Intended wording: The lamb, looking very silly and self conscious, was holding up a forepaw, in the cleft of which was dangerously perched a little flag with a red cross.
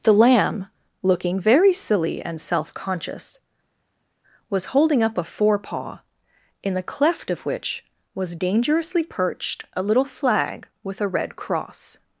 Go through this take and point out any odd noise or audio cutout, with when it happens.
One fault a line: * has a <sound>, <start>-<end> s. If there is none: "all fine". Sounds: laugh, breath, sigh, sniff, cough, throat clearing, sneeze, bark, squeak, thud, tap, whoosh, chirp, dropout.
all fine